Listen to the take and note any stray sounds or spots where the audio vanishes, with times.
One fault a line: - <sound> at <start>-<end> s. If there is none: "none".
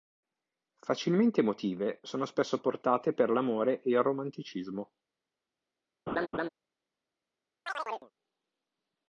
- laugh at 6.1-6.5 s
- chirp at 7.7-8.1 s